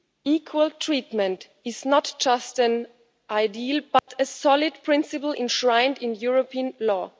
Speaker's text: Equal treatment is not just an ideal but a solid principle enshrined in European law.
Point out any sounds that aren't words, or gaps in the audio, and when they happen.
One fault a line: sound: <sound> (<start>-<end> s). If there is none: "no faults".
sound: dropout (4.0-4.1 s)